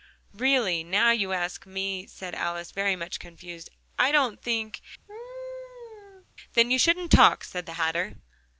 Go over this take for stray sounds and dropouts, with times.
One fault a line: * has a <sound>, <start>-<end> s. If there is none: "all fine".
* has a laugh, 5.1-6.3 s